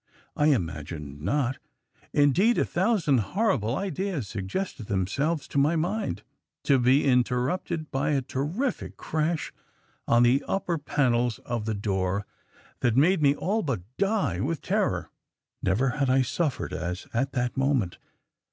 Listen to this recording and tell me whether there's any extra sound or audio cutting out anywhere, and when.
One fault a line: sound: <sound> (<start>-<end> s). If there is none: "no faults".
no faults